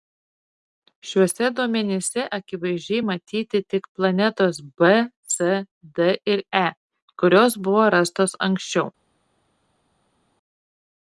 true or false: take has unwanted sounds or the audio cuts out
false